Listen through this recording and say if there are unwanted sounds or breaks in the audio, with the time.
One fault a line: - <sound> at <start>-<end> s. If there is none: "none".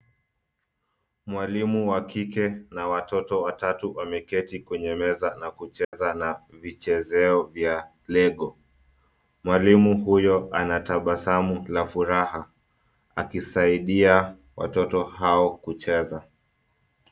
- dropout at 5.8-5.9 s